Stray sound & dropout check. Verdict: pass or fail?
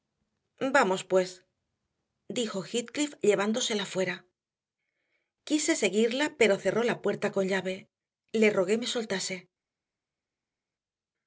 pass